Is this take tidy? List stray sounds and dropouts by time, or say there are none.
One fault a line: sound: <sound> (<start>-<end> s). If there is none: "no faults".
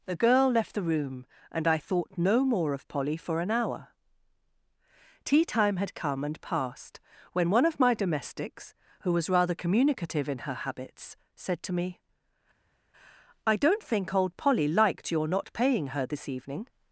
no faults